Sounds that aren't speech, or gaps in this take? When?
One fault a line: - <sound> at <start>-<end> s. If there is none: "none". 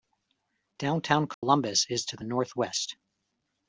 - dropout at 1.3-1.4 s